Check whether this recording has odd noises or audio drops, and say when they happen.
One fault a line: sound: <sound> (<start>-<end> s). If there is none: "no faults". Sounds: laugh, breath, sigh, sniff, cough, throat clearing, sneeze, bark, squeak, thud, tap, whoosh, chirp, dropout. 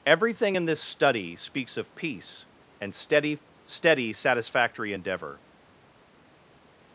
no faults